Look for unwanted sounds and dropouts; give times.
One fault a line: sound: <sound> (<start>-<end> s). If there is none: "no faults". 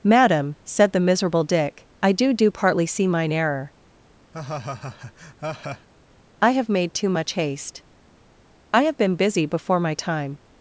sound: laugh (4.3-5.9 s)